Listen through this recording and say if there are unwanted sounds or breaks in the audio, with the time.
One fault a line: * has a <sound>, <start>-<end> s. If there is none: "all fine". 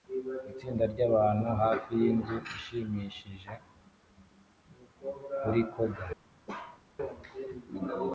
* has a bark, 6.5-6.8 s